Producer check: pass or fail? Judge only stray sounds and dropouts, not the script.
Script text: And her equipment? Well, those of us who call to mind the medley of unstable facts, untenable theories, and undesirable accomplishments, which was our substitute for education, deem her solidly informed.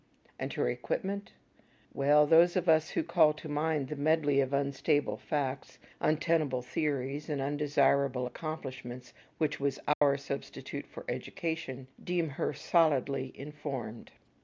fail